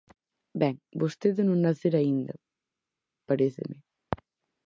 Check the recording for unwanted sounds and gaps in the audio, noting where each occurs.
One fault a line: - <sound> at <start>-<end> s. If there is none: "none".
none